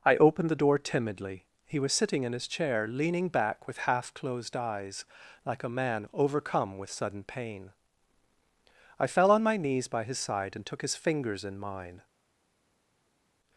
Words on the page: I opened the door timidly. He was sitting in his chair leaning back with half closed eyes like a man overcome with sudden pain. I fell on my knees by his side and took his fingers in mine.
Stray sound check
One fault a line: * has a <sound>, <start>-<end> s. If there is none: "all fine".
all fine